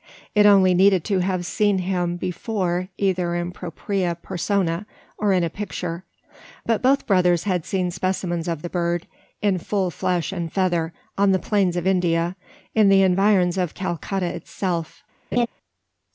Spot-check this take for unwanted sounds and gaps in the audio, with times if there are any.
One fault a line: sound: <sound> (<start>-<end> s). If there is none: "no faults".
sound: laugh (15.3-15.5 s)